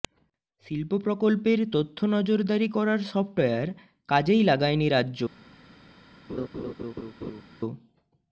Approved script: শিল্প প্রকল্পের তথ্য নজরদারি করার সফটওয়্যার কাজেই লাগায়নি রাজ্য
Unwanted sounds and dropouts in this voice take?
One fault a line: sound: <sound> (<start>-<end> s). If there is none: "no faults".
sound: laugh (6.3-7.4 s)